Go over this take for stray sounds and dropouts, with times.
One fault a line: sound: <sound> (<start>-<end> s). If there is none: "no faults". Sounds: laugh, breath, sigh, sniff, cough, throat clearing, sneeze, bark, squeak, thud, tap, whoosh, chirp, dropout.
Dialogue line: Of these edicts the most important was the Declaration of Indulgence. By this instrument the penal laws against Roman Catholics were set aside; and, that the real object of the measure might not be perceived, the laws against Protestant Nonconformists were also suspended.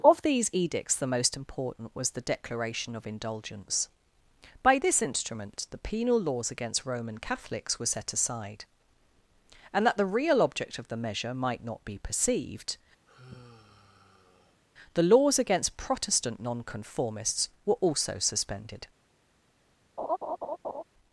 sound: sigh (13.1-14.6 s)
sound: laugh (20.0-20.8 s)